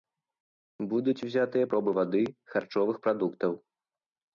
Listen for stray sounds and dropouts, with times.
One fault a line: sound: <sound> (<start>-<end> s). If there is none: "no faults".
no faults